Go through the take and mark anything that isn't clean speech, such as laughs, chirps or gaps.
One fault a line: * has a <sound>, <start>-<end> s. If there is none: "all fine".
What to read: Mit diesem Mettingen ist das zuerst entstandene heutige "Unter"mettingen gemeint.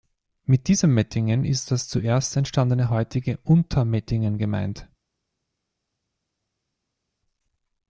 all fine